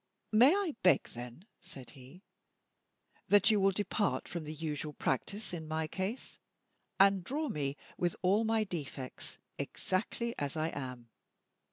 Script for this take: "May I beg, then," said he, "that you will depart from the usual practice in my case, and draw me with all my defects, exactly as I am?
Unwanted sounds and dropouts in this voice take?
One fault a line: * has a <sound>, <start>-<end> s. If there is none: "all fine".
all fine